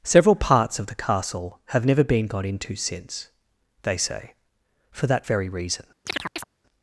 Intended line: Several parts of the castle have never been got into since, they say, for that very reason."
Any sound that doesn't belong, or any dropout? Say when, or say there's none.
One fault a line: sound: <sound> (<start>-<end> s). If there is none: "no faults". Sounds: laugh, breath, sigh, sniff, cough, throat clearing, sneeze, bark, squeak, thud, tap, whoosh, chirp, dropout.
sound: chirp (6.1-6.4 s)